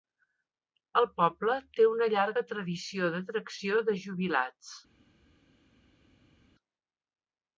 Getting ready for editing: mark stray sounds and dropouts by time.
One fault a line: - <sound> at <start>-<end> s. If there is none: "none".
none